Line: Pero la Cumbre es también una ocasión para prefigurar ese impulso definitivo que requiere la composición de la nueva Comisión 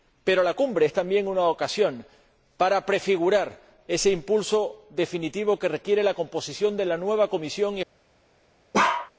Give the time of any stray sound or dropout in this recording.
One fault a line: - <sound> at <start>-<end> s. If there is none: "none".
- bark at 8.7-9.1 s